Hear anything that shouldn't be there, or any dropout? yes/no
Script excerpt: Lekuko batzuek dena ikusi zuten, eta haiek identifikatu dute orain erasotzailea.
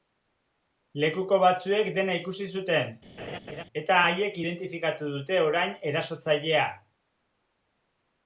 yes